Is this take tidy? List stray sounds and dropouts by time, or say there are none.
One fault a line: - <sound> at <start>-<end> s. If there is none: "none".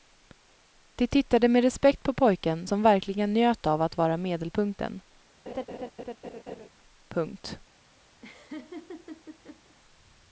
- laugh at 5.5-6.7 s
- laugh at 8.2-9.8 s